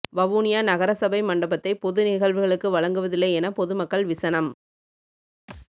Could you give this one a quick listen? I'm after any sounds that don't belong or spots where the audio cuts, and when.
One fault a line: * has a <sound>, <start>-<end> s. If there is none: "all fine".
* has a thud, 5.5-5.7 s